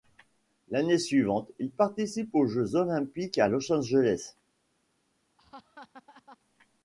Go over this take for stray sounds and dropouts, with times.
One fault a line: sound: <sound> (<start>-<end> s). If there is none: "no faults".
sound: laugh (5.4-6.4 s)